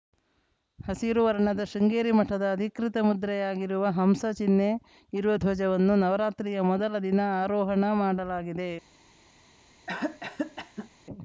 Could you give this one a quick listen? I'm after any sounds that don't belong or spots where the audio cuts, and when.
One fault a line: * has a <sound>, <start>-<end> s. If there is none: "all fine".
* has a cough, 9.9-10.9 s